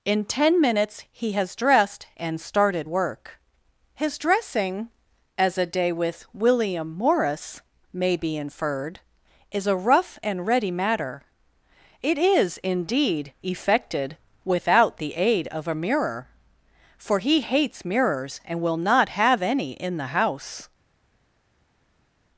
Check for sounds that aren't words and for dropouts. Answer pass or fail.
pass